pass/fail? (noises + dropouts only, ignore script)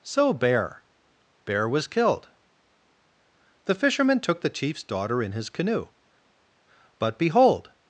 pass